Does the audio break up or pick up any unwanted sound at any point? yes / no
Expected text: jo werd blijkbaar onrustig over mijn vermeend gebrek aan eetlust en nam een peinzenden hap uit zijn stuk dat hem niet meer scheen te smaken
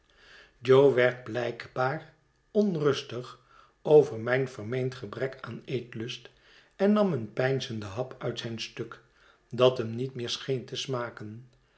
no